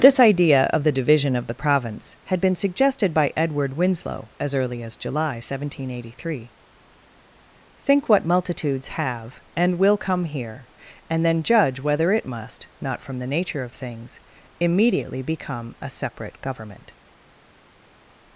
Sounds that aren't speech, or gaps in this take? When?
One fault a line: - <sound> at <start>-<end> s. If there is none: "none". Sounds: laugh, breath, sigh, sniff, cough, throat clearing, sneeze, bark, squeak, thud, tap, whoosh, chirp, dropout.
none